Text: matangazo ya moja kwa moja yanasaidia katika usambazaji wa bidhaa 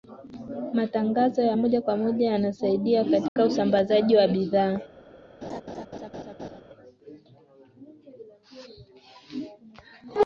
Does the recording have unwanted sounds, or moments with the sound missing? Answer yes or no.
yes